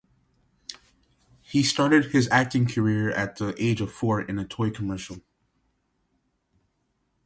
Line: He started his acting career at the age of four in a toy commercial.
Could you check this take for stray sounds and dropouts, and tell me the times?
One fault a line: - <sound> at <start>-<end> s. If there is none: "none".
none